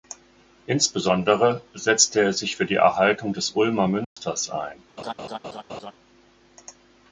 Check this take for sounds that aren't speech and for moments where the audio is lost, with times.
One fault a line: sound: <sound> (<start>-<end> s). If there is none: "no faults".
sound: dropout (4.0-4.2 s)
sound: laugh (5.0-5.9 s)